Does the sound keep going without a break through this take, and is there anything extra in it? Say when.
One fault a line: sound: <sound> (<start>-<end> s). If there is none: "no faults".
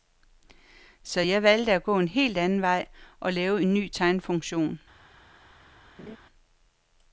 sound: laugh (6.0-6.2 s)